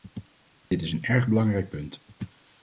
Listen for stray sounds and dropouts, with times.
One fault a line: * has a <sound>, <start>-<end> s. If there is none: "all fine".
* has a dropout, 0.7-0.7 s